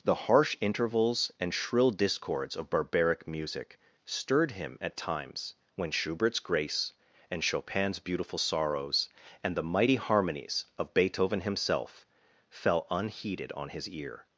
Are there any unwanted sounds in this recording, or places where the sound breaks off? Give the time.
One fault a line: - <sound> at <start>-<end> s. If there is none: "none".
none